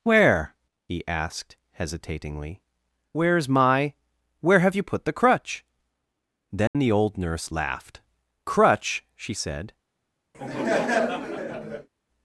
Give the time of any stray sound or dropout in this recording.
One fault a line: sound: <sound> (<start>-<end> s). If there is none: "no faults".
sound: dropout (6.7-6.7 s)
sound: laugh (10.3-11.9 s)